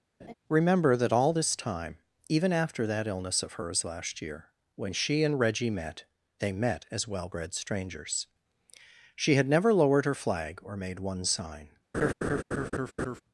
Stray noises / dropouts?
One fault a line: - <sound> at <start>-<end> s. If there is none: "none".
- laugh at 0.2-0.3 s
- laugh at 11.9-13.2 s